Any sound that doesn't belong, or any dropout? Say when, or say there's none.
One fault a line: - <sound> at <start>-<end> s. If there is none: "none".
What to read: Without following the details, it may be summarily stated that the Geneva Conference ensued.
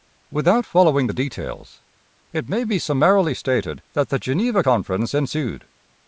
none